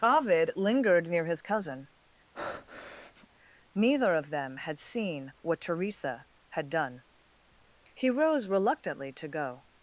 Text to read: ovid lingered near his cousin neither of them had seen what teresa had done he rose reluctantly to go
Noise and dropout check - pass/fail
fail